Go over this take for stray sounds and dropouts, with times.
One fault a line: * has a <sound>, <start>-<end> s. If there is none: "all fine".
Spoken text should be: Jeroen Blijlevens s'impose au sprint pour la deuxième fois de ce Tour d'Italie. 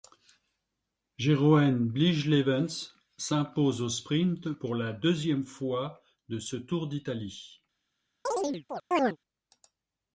* has a chirp, 8.3-9.2 s